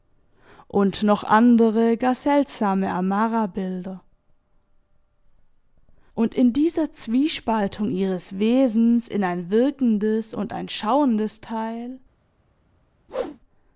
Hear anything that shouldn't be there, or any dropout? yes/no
yes